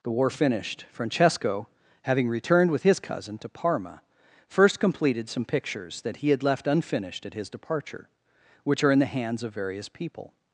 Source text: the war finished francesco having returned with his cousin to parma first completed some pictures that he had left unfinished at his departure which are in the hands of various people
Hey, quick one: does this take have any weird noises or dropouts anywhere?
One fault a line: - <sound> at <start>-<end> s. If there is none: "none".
none